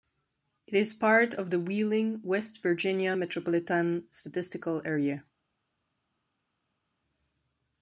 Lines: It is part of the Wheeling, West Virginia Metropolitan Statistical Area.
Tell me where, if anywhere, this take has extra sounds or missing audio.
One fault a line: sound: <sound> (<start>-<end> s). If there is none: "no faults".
no faults